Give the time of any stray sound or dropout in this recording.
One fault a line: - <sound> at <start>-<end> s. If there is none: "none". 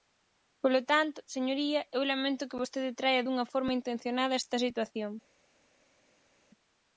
none